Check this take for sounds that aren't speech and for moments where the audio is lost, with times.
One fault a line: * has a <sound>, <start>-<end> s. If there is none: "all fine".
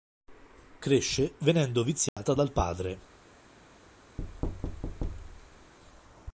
* has a dropout, 2.1-2.2 s
* has a thud, 4.2-5.7 s